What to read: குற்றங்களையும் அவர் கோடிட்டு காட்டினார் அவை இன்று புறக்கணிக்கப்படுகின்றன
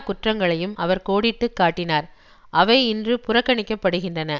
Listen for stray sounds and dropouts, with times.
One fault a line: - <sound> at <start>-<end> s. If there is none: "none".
none